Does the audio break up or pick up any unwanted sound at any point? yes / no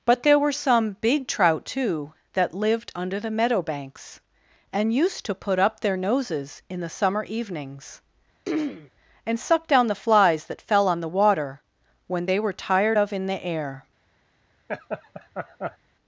yes